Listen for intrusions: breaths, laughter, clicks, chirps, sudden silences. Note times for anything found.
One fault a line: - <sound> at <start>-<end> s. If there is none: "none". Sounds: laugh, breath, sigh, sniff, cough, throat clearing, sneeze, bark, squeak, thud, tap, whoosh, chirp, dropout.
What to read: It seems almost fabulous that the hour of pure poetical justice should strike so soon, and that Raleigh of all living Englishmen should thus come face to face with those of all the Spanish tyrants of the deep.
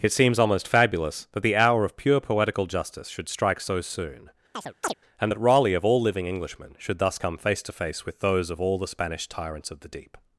- chirp at 4.5-4.9 s